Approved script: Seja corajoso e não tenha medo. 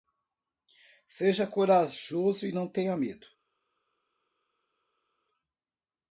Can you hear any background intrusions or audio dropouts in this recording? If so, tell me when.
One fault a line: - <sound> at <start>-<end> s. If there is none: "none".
none